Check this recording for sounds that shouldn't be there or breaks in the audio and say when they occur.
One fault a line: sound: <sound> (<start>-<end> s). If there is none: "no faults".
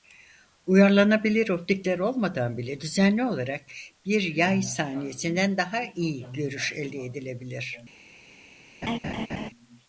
sound: laugh (8.8-9.5 s)